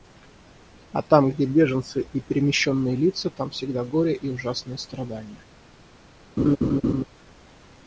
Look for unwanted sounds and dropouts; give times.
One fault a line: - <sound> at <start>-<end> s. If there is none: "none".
- laugh at 6.4-7.0 s